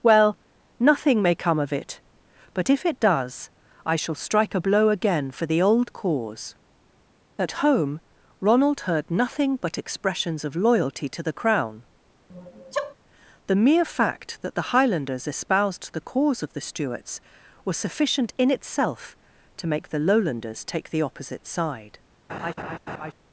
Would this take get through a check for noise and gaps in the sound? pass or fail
fail